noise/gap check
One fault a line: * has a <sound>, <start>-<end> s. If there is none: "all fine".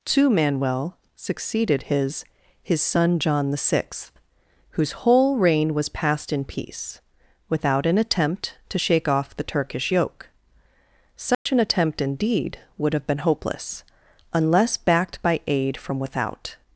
* has a dropout, 11.3-11.5 s